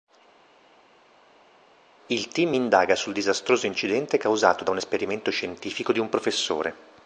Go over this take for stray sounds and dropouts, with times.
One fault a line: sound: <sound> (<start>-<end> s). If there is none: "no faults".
no faults